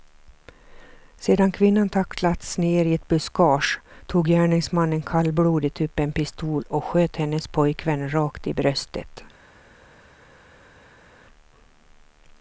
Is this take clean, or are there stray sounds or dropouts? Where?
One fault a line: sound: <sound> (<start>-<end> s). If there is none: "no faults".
no faults